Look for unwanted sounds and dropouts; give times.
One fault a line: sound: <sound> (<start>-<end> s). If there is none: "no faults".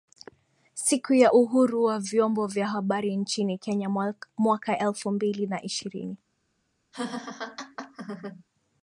sound: laugh (6.9-8.4 s)